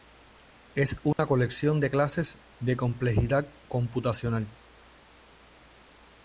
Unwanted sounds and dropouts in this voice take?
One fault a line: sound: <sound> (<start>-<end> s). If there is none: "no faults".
sound: dropout (1.1-1.2 s)